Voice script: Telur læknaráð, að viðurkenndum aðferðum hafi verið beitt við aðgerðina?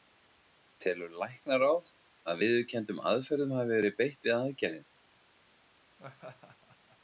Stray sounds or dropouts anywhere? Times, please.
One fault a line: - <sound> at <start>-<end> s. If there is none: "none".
- laugh at 6.0-7.0 s